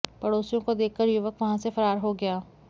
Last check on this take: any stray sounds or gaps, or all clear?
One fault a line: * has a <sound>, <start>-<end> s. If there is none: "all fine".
all fine